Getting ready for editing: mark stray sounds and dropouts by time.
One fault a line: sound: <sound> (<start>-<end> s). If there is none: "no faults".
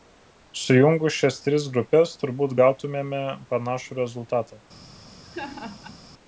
sound: laugh (5.2-6.0 s)